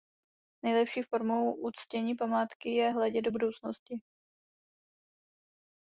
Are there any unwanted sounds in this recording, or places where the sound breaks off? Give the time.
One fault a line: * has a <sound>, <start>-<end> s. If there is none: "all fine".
all fine